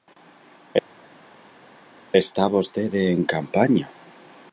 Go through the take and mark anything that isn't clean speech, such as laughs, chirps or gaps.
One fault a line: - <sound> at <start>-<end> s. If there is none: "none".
none